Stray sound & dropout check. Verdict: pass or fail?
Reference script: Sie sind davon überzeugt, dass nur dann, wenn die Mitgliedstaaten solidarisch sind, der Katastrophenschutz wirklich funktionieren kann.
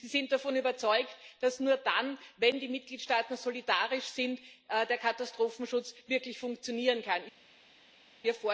pass